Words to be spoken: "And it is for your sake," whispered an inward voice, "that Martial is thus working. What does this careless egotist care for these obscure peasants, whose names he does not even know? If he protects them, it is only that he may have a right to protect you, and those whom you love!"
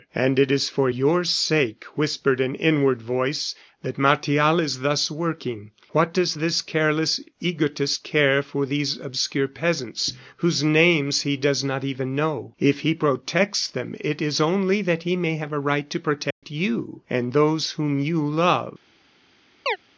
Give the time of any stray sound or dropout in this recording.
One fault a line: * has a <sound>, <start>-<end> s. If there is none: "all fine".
* has a dropout, 16.3-16.4 s
* has a chirp, 19.7-19.8 s